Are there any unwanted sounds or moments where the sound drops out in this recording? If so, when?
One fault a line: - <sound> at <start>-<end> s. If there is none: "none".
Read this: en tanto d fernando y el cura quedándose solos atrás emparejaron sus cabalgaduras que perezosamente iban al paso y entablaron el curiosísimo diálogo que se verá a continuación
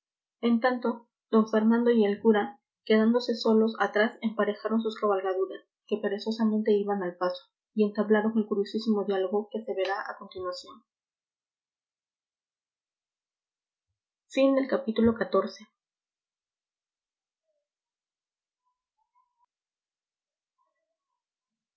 none